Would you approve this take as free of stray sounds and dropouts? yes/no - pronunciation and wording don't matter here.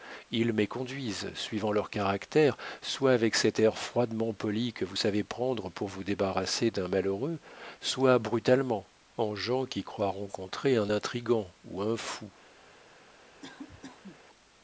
no